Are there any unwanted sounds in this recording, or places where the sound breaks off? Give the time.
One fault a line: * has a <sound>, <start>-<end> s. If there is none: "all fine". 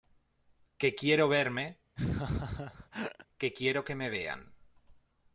* has a laugh, 2.0-3.3 s